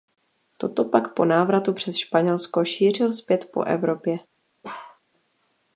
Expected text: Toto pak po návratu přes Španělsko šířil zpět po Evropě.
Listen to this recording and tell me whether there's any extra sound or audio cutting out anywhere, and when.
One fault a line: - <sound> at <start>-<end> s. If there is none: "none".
- bark at 4.6-5.0 s